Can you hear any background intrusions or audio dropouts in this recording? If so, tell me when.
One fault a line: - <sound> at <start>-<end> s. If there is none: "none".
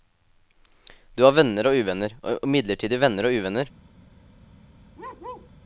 - bark at 5.0-5.5 s